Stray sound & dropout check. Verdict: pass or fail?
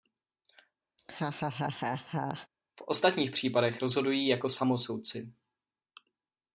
fail